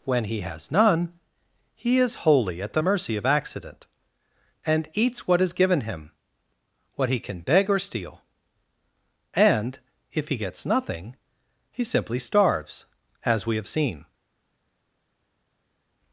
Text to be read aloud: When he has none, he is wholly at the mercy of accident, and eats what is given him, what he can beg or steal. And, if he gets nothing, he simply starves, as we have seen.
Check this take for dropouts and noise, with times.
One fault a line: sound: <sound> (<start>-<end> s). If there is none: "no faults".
no faults